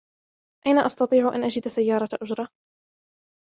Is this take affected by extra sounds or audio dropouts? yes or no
no